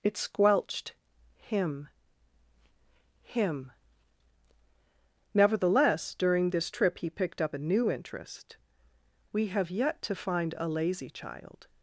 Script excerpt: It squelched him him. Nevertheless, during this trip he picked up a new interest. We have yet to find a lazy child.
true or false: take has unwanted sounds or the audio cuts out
false